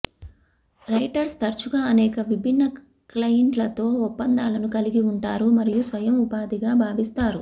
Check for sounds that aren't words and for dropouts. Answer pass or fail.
pass